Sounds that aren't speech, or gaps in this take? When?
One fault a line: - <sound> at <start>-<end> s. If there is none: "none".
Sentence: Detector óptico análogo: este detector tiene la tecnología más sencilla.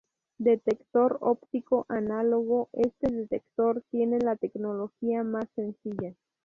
none